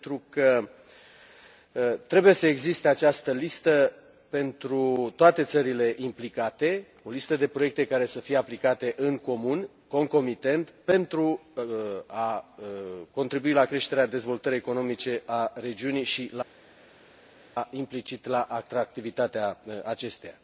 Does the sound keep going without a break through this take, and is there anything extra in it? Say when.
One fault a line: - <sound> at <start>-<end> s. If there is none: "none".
none